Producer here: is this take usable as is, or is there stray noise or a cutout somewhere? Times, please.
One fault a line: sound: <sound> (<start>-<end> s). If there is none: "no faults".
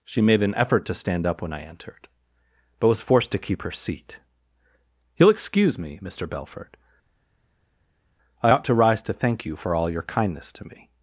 no faults